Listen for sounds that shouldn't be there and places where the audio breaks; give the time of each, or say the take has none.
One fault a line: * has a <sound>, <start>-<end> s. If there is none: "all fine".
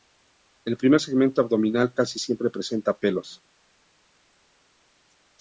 all fine